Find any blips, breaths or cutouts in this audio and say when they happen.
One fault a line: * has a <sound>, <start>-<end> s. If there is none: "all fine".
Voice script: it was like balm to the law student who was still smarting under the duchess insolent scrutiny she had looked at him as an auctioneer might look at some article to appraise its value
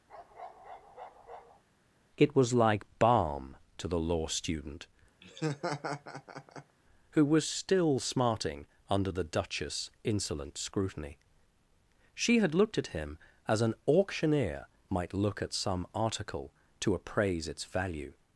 * has a bark, 0.1-1.6 s
* has a laugh, 5.2-6.8 s